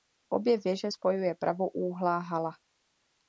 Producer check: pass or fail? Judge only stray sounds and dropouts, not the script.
pass